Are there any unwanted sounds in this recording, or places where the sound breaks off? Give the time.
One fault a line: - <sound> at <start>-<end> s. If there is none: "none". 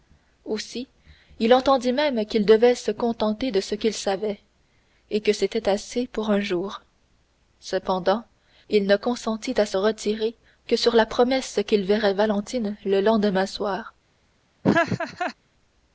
- laugh at 14.6-15.3 s